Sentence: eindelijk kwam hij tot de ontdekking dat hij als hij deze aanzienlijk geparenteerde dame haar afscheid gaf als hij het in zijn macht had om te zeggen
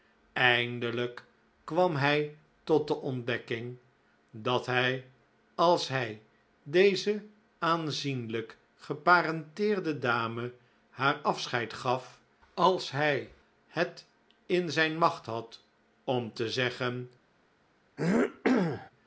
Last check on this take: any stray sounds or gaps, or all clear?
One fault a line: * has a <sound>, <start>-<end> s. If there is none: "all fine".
* has a throat clearing, 18.0-18.9 s